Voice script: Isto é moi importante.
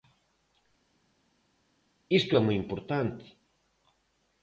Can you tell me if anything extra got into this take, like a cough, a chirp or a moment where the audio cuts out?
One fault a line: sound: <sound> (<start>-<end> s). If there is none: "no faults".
no faults